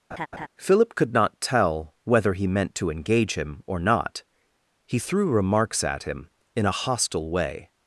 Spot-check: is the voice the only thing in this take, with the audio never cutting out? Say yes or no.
no